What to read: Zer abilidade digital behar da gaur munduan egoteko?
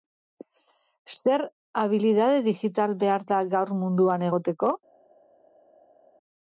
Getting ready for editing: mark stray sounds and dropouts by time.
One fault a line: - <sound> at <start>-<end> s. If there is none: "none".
none